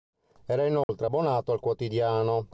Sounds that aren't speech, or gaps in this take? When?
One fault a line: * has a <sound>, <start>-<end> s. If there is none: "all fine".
* has a dropout, 0.8-0.9 s